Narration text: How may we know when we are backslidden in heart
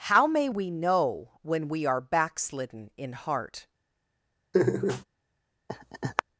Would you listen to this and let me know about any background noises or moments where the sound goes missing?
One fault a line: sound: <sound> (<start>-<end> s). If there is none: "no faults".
sound: laugh (4.5-5.0 s)
sound: laugh (5.7-6.2 s)